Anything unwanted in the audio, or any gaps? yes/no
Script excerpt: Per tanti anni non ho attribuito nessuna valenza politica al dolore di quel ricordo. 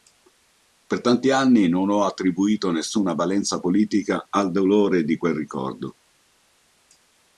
no